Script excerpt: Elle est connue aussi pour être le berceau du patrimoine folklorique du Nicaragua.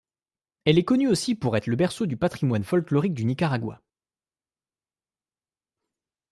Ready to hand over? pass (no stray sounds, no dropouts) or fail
pass